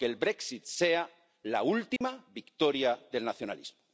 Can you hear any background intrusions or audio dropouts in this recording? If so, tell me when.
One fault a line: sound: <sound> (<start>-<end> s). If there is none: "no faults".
sound: dropout (2.0-2.0 s)